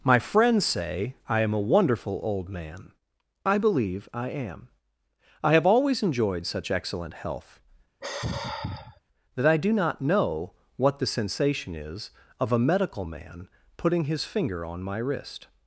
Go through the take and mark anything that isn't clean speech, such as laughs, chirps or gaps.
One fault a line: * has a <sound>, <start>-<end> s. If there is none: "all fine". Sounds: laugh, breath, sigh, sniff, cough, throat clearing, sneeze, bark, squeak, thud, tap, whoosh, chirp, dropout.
* has a sigh, 8.0-9.0 s